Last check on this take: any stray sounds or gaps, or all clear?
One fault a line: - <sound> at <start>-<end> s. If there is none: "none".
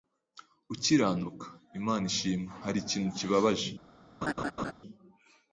- laugh at 4.2-4.7 s